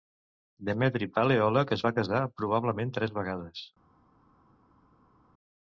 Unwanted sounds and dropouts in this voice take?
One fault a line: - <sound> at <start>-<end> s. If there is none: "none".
none